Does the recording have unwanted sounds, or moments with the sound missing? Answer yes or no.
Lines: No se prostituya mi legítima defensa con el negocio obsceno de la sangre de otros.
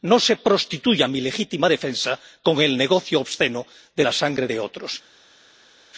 no